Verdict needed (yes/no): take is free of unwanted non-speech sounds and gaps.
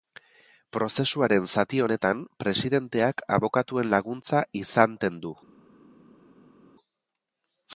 yes